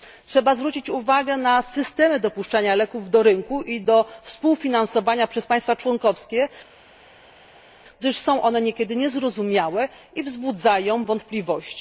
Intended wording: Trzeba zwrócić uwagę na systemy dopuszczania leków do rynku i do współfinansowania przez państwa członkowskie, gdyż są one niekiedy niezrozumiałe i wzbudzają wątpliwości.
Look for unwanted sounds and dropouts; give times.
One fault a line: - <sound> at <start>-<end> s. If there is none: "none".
none